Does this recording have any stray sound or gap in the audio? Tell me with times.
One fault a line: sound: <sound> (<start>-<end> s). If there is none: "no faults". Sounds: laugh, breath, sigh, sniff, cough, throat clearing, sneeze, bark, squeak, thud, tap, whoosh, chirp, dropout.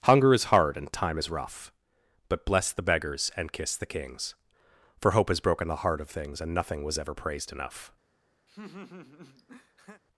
sound: laugh (8.5-10.0 s)